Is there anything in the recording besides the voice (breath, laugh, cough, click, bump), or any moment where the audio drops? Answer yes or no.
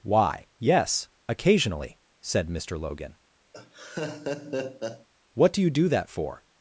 yes